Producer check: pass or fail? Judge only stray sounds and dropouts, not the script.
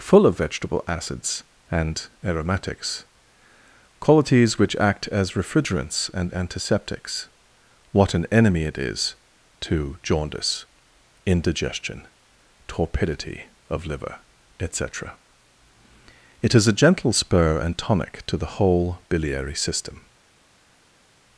pass